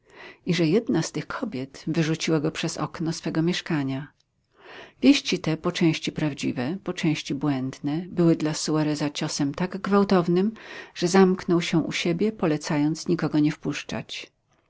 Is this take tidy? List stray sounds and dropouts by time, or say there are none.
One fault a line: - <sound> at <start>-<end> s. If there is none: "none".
none